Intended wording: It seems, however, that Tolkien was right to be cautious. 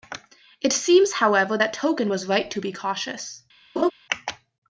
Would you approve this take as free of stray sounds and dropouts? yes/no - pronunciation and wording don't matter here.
no